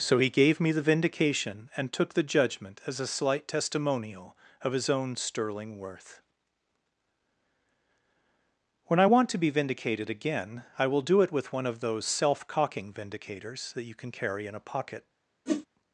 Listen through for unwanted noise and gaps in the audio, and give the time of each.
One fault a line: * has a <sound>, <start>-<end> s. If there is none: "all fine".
* has a whoosh, 15.5-15.7 s